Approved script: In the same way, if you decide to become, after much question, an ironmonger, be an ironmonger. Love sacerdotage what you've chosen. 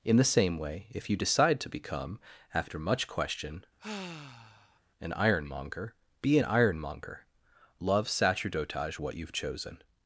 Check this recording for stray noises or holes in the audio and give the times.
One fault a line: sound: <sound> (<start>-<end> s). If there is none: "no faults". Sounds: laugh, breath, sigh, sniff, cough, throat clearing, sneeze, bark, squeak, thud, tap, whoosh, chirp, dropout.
sound: sigh (3.8-4.8 s)